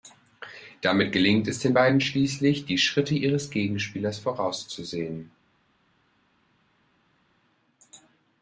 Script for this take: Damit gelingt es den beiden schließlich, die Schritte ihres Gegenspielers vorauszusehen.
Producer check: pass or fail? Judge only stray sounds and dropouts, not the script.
pass